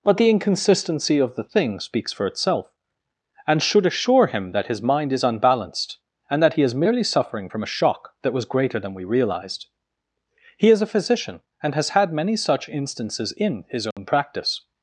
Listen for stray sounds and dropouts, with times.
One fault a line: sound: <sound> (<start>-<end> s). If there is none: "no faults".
sound: dropout (13.9-14.0 s)